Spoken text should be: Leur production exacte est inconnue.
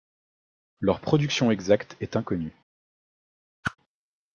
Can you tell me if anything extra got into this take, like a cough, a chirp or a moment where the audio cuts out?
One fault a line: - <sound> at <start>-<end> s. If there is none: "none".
- whoosh at 3.6-3.8 s